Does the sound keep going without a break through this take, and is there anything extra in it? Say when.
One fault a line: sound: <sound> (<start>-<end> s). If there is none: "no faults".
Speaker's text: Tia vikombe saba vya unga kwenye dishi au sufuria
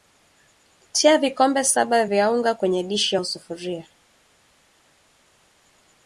no faults